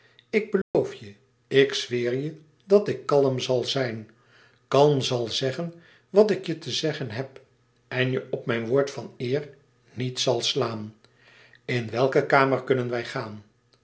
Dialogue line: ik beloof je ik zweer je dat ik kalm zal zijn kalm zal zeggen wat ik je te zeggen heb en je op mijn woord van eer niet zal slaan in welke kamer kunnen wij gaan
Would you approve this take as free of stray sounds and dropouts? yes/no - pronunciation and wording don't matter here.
no